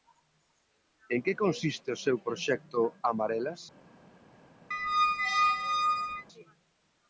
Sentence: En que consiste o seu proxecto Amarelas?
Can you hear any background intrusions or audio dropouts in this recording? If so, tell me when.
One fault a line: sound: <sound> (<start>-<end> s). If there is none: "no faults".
sound: squeak (4.7-6.3 s)